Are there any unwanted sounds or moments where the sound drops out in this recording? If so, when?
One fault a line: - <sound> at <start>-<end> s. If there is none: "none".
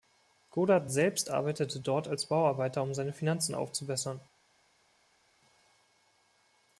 none